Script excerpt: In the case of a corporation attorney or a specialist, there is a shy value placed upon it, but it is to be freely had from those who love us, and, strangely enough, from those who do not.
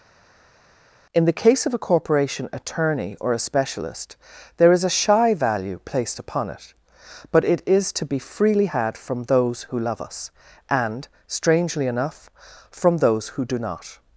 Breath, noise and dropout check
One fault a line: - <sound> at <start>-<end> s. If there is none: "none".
none